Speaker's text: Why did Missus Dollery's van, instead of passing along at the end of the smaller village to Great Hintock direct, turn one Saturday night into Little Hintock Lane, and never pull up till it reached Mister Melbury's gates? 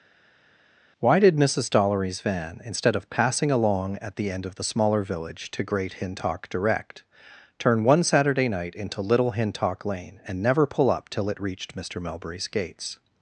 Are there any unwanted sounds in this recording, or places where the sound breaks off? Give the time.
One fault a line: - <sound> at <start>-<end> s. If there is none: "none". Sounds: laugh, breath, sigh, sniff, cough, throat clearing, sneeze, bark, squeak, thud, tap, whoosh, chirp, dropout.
none